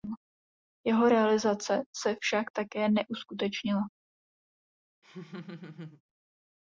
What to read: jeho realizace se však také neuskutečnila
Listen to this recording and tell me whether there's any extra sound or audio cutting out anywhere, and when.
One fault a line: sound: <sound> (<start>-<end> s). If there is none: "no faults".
sound: laugh (5.0-6.0 s)